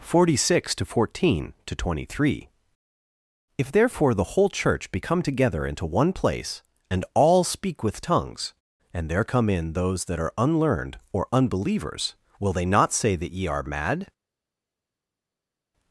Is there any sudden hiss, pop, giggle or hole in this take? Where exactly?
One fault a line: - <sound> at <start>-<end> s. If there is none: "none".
none